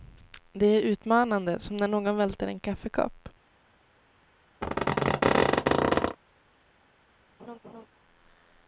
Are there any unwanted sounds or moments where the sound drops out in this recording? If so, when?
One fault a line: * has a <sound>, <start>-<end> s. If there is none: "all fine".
* has a squeak, 4.6-6.2 s
* has a laugh, 7.4-7.9 s